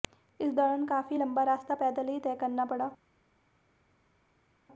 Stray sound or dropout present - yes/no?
no